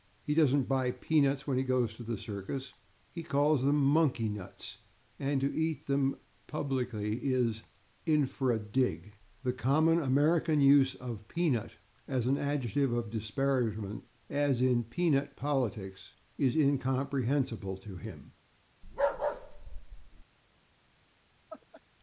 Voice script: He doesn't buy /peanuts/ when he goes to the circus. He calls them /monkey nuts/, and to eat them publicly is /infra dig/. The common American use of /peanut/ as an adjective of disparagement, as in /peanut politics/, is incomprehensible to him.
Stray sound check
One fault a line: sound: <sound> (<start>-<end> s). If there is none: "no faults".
sound: bark (18.8-20.2 s)
sound: laugh (21.5-21.8 s)